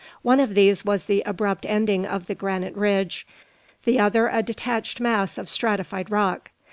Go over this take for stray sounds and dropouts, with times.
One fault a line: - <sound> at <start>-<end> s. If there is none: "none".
none